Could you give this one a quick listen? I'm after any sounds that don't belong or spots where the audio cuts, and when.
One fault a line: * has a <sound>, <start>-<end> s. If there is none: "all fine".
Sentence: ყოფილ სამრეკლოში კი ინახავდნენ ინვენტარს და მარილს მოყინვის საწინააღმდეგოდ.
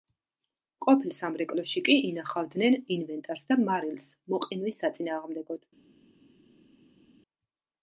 all fine